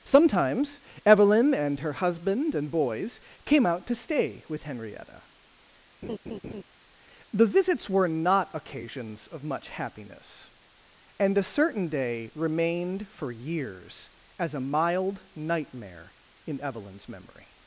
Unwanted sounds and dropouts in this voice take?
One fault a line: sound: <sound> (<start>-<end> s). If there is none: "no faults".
sound: laugh (6.0-6.6 s)